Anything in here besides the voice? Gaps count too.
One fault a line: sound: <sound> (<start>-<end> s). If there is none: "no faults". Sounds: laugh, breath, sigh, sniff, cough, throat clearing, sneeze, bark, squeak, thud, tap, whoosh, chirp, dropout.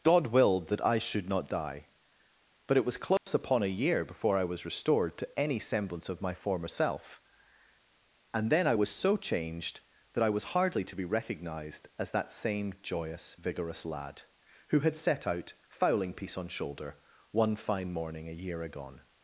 sound: dropout (3.2-3.3 s)